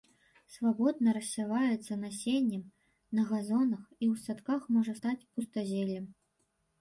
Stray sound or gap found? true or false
false